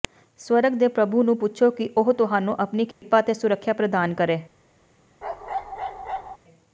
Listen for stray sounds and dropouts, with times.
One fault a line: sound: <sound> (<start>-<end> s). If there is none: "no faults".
sound: dropout (2.9-3.0 s)
sound: bark (5.2-6.4 s)